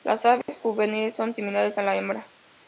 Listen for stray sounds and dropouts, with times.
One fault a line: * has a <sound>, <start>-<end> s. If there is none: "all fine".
* has a dropout, 0.4-0.5 s